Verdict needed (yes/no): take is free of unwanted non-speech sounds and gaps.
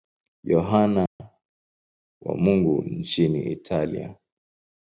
no